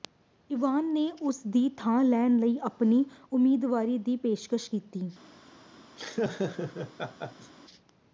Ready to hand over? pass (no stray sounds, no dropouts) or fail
fail